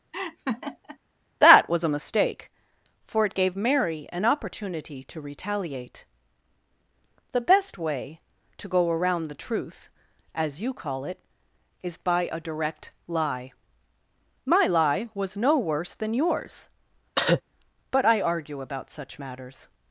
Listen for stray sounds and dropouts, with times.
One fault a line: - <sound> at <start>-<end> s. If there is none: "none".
- laugh at 0.1-1.0 s
- cough at 17.2-17.4 s